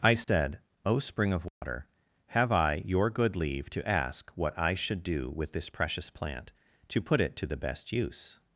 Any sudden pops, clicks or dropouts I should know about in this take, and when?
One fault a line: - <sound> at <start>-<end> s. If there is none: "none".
- dropout at 0.2-0.3 s
- dropout at 1.5-1.6 s